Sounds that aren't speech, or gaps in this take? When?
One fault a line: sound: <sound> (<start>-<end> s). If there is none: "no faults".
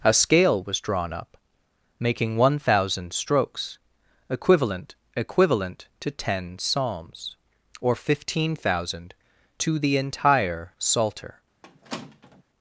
sound: squeak (11.6-12.4 s)